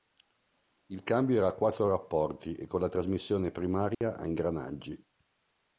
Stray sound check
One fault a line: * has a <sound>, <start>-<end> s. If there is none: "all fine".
* has a dropout, 3.9-4.0 s